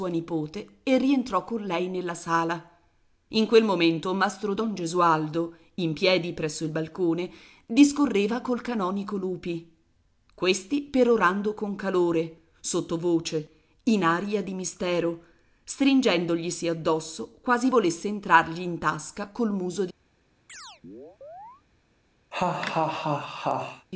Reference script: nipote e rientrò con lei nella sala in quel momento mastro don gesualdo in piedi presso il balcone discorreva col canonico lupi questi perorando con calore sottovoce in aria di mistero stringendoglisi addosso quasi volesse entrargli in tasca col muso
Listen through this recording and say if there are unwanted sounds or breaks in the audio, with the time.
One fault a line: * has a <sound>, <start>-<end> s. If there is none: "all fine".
* has a chirp, 20.5-21.6 s
* has a laugh, 22.3-23.9 s